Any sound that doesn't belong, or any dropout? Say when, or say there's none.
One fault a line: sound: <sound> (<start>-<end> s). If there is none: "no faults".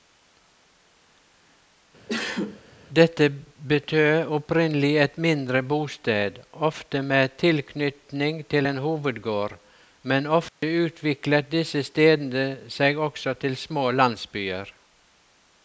sound: sneeze (2.1-2.6 s)
sound: dropout (10.5-10.6 s)